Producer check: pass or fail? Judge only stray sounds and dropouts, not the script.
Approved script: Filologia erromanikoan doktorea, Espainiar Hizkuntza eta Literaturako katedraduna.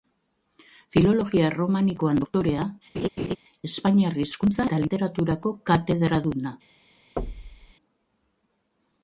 fail